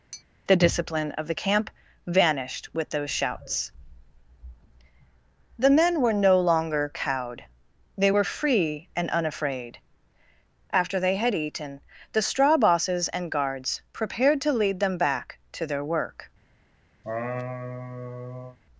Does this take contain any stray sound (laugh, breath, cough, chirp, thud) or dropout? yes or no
yes